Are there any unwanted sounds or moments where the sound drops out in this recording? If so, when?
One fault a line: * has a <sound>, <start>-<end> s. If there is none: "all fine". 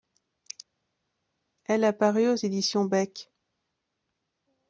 all fine